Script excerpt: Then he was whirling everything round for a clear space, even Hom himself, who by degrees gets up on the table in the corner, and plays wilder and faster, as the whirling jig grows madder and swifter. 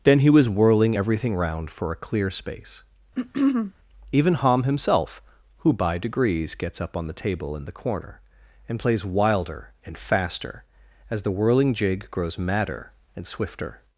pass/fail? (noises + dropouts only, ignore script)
fail